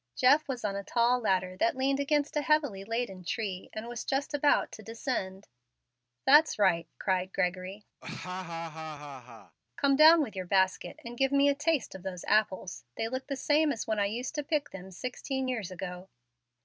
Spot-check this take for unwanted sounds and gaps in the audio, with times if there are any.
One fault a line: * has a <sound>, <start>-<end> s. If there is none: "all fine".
* has a laugh, 8.0-9.6 s